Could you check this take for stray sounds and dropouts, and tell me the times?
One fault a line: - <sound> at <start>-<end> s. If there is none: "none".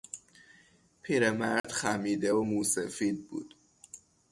- dropout at 1.6-1.6 s